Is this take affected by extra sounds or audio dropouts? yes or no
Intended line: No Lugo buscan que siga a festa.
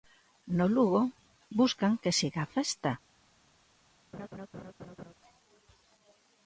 yes